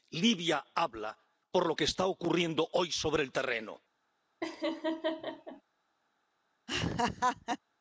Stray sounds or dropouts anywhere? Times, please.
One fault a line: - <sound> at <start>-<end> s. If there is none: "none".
- laugh at 4.4-5.6 s
- laugh at 6.7-7.6 s